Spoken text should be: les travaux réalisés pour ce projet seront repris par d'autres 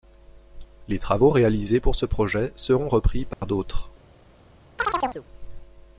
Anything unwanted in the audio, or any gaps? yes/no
yes